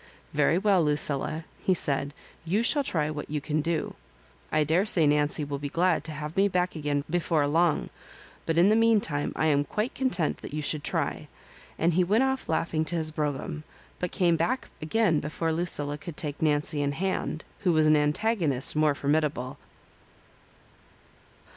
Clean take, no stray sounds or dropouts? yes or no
yes